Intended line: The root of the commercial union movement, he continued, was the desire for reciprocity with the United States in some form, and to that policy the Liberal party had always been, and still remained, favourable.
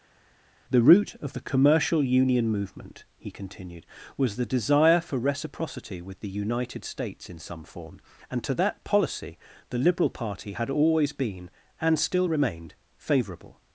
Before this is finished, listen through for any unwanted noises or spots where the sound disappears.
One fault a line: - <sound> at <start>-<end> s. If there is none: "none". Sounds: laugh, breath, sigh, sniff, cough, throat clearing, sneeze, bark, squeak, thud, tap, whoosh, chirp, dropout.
none